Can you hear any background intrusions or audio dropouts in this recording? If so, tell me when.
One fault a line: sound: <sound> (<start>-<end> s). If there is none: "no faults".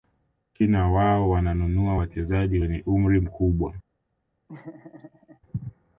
sound: laugh (4.5-5.4 s)